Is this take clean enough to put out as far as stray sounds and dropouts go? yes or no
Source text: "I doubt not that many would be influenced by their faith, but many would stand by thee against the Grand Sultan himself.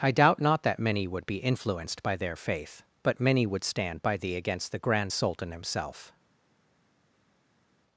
yes